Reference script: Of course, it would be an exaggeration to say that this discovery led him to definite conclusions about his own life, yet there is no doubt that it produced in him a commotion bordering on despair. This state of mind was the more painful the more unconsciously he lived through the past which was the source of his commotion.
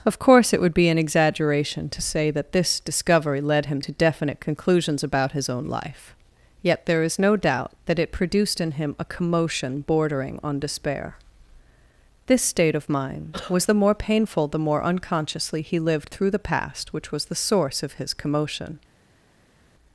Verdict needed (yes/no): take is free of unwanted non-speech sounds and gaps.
yes